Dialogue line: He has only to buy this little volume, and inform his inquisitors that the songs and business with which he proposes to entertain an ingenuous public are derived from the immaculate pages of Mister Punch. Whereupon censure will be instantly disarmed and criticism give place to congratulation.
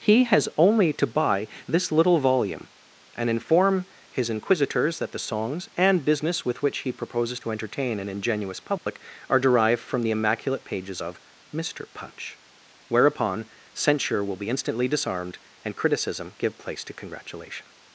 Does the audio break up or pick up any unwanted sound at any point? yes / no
yes